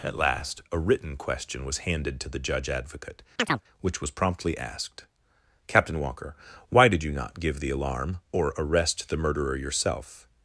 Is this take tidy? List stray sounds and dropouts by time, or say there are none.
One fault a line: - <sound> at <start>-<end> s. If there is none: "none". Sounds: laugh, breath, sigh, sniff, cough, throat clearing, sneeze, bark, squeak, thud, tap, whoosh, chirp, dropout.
- chirp at 3.4-3.6 s